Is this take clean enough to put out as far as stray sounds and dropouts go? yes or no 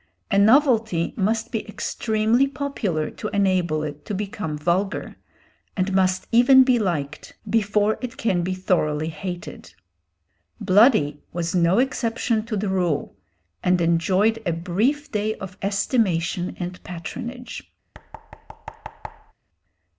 no